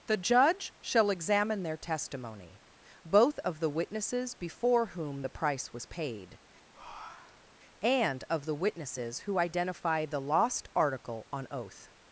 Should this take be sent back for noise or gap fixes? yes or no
yes